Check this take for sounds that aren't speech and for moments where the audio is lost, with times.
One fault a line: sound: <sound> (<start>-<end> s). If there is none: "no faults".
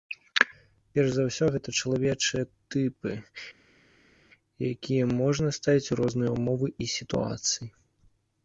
no faults